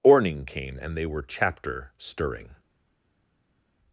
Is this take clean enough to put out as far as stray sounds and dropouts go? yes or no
yes